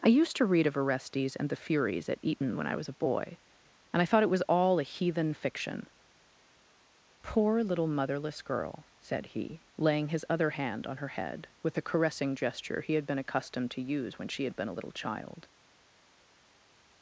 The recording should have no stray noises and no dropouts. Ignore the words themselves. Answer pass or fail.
pass